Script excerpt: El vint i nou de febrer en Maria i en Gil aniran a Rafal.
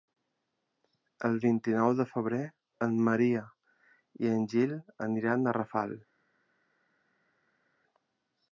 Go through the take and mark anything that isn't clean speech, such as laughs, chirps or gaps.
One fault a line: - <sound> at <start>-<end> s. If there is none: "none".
none